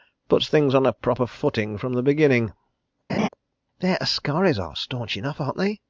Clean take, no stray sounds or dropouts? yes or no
no